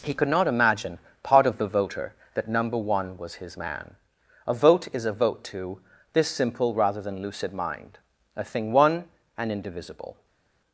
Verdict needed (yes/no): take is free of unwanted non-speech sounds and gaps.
yes